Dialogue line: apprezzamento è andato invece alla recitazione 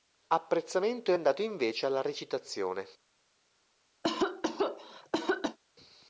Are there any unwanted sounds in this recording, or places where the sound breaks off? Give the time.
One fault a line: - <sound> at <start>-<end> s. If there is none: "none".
- cough at 4.0-5.6 s